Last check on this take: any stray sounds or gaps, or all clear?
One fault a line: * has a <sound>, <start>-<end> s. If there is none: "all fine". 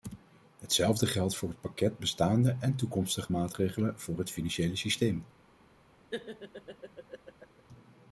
* has a laugh, 6.1-7.6 s